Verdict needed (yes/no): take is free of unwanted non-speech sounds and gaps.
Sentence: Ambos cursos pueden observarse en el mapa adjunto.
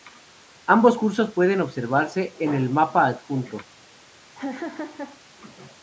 no